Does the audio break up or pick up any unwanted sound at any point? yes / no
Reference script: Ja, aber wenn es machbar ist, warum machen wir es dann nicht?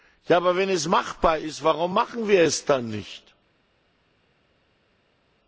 no